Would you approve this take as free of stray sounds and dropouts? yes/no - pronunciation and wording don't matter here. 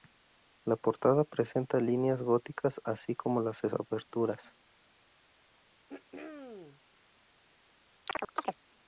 no